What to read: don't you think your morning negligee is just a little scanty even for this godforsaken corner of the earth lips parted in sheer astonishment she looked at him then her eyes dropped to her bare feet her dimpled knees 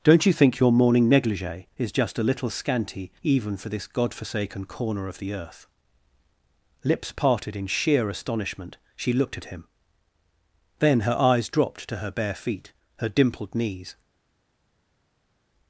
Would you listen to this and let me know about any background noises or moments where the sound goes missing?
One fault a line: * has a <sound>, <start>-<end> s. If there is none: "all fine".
all fine